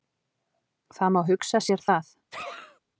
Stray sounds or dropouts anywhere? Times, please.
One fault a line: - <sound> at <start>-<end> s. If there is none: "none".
- sneeze at 2.3-2.8 s